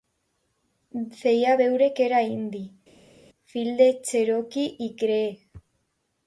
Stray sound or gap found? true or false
false